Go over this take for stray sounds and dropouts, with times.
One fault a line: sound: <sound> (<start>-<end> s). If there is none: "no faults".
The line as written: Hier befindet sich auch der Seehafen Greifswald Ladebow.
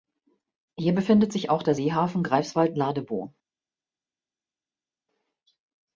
no faults